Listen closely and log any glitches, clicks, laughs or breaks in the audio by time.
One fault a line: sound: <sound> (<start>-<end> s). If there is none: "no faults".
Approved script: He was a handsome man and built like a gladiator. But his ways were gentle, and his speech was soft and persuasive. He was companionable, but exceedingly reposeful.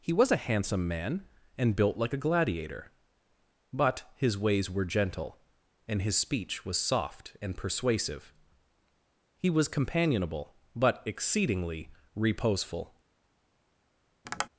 sound: tap (14.2-14.5 s)